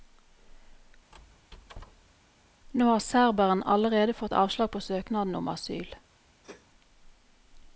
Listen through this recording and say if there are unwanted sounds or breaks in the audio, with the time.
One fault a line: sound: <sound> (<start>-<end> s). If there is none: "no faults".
sound: squeak (1.1-2.2 s)
sound: sneeze (6.4-6.7 s)